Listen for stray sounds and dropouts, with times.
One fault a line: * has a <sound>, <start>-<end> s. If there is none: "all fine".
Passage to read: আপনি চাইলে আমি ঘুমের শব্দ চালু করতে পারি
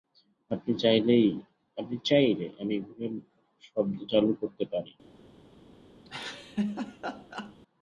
* has a laugh, 6.1-7.6 s